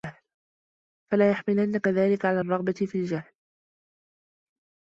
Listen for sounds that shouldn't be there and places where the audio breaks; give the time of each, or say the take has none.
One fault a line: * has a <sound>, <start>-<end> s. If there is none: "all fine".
all fine